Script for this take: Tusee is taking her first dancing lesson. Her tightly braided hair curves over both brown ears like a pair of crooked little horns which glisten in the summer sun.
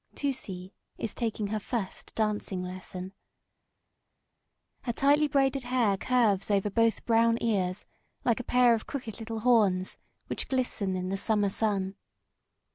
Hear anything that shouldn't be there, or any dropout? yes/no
no